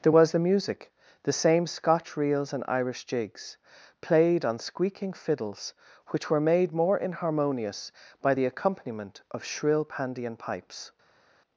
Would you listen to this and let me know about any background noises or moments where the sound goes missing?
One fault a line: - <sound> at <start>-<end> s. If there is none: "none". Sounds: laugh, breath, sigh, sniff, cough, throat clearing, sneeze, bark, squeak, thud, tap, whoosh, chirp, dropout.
none